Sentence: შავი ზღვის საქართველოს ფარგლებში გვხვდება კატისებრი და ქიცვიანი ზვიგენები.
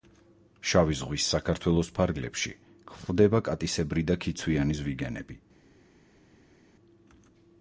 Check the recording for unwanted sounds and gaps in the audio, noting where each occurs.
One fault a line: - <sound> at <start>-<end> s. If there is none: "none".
none